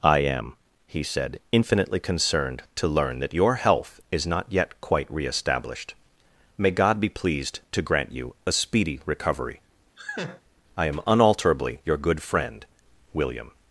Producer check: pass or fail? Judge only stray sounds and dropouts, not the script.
fail